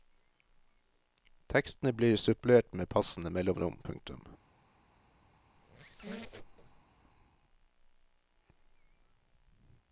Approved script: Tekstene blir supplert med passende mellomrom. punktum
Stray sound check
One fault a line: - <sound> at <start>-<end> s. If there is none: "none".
- squeak at 5.6-6.8 s